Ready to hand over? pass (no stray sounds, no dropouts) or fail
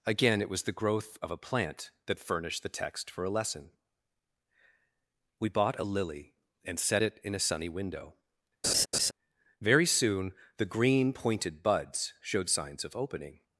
fail